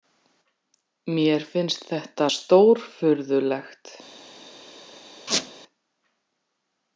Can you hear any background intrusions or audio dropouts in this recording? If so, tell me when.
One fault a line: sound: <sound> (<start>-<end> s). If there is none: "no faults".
sound: squeak (5.3-5.5 s)